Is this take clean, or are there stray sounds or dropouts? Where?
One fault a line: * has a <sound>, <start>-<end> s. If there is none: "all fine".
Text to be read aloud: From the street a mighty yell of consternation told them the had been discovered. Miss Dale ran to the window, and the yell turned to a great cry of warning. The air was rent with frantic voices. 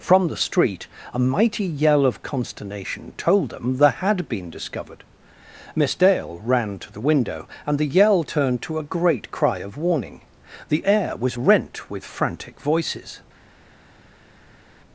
all fine